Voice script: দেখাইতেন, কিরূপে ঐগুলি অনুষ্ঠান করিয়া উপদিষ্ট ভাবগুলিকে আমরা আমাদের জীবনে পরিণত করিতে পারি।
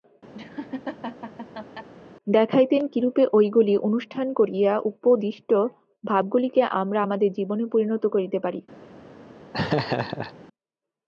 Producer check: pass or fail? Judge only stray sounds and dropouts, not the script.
fail